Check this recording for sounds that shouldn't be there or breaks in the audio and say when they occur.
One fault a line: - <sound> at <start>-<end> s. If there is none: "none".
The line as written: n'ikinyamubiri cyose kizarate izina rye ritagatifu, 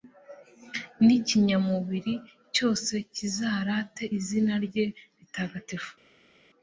none